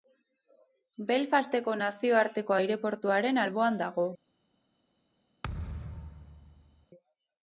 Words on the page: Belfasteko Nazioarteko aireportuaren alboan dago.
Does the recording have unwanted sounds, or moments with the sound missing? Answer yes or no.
yes